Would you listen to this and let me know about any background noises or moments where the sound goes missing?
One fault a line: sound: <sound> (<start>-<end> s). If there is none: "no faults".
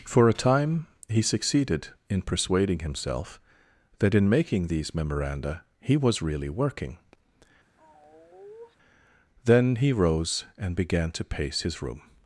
sound: sigh (7.8-8.8 s)